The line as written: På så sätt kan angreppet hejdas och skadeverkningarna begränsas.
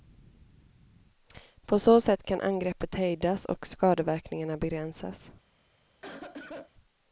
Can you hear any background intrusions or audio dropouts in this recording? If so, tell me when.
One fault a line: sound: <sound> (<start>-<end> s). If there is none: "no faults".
sound: cough (6.0-6.7 s)